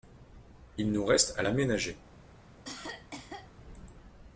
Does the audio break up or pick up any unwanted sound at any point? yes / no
yes